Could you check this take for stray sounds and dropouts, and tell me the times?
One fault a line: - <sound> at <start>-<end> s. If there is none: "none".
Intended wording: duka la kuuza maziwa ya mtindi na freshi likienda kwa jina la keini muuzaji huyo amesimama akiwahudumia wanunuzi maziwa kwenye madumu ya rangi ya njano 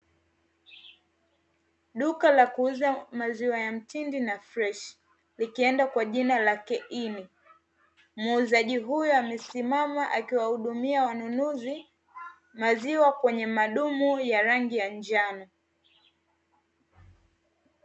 none